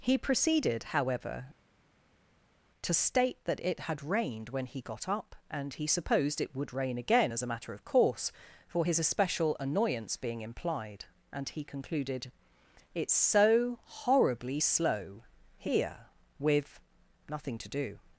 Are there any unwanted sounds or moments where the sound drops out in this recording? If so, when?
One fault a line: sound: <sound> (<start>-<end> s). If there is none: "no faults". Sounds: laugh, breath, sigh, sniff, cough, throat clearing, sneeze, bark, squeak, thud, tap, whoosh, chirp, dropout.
no faults